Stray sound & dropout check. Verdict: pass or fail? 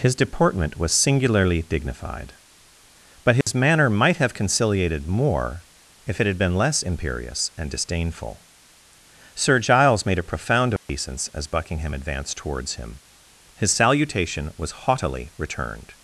fail